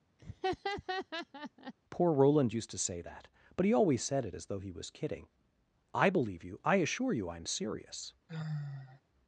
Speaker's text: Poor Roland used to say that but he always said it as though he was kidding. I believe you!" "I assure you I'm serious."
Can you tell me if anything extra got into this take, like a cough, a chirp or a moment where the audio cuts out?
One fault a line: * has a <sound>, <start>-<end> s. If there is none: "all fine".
* has a laugh, 0.2-1.7 s
* has a sigh, 8.3-9.0 s